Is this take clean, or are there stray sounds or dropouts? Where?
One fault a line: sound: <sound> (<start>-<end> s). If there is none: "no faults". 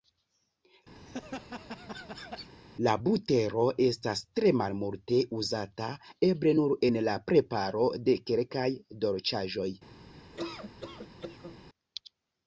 sound: laugh (1.0-2.5 s)
sound: laugh (10.3-11.6 s)